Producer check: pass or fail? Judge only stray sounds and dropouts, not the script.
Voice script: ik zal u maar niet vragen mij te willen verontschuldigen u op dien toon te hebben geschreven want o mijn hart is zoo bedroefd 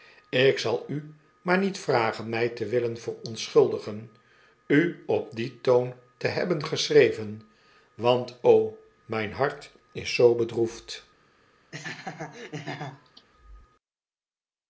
fail